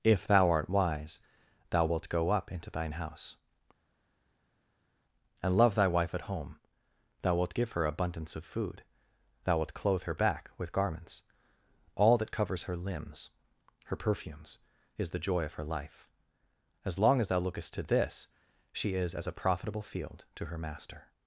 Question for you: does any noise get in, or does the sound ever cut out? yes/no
no